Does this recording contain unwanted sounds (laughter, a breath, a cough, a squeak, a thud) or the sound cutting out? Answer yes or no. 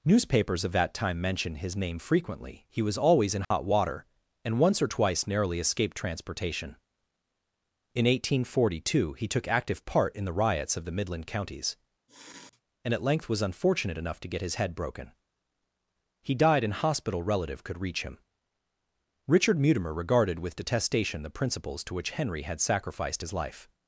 yes